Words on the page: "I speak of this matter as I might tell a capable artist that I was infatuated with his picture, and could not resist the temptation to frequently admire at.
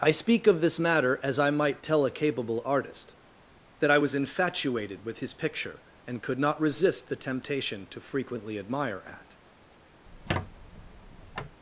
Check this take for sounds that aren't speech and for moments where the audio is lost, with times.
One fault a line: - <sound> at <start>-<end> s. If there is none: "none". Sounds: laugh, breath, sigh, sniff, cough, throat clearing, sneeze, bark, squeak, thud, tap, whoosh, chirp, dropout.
- squeak at 10.1-11.6 s